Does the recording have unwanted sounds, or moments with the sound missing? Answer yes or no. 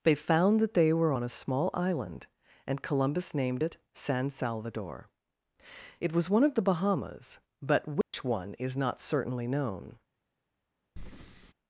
yes